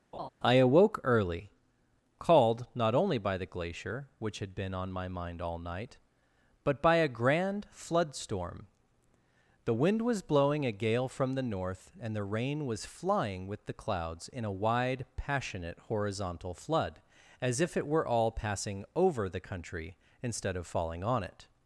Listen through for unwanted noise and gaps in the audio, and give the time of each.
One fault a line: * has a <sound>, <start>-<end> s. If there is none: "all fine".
* has a laugh, 0.1-0.3 s